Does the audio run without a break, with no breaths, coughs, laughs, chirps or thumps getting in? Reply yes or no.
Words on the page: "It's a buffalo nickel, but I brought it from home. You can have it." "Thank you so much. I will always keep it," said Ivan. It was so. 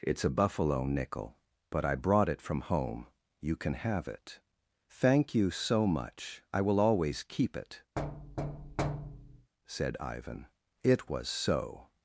no